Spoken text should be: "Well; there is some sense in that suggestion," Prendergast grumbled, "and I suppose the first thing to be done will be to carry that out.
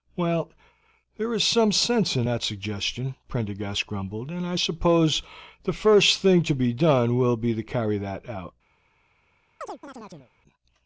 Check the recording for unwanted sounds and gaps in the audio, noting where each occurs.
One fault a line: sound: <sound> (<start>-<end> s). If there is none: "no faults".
sound: chirp (9.6-10.3 s)